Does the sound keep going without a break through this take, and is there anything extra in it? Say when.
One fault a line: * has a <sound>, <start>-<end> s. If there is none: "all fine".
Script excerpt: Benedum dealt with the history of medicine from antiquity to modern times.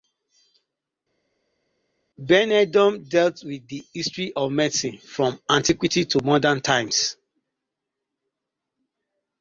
all fine